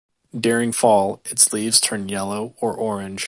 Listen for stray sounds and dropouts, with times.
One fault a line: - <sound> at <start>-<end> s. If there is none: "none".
none